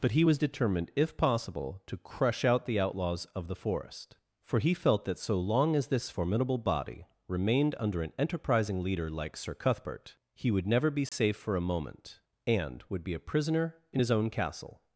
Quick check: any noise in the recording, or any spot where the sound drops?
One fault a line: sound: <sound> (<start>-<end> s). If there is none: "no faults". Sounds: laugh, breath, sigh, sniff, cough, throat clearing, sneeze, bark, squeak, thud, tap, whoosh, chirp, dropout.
sound: dropout (11.1-11.1 s)